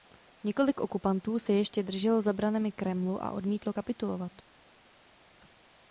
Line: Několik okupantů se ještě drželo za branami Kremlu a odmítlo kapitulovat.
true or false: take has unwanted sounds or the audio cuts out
false